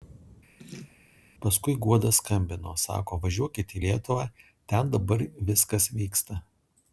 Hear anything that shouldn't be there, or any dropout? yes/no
yes